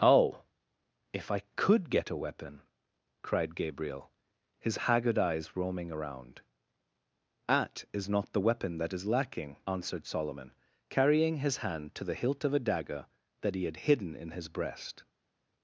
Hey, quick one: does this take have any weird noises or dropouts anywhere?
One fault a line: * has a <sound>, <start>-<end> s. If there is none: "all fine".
all fine